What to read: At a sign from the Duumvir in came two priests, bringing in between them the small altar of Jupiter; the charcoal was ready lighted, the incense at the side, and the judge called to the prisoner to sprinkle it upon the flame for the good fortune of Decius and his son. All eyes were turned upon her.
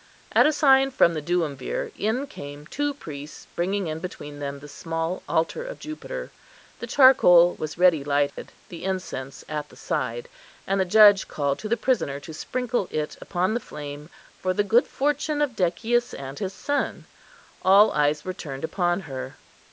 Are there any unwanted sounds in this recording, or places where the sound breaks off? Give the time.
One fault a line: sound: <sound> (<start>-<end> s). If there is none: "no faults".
sound: dropout (8.3-8.4 s)